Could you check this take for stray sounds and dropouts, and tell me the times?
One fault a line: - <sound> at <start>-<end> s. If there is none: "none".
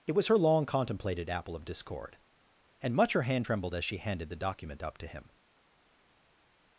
none